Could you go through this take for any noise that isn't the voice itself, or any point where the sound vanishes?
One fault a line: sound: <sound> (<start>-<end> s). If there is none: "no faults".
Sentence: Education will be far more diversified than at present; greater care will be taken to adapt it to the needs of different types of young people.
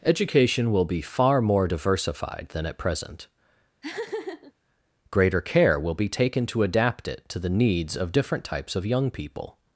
sound: laugh (3.8-4.5 s)